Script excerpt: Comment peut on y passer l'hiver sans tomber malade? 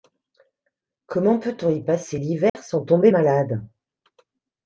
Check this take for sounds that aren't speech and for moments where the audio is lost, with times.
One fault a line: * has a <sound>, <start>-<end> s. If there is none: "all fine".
* has a dropout, 2.5-2.6 s